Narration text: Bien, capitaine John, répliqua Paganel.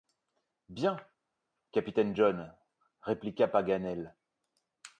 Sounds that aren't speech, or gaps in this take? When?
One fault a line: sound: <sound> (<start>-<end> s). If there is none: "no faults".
no faults